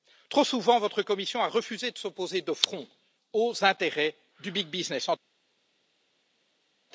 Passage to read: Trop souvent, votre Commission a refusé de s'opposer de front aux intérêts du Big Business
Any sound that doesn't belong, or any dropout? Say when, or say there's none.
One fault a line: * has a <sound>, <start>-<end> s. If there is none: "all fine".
all fine